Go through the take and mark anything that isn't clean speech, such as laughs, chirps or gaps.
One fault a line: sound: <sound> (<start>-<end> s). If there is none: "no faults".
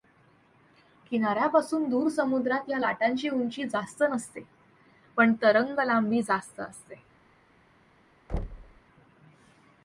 sound: thud (8.3-8.8 s)